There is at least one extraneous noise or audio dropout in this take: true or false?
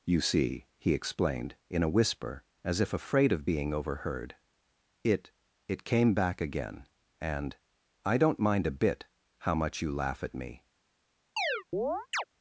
true